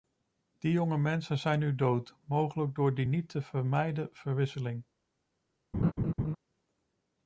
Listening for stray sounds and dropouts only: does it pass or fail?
fail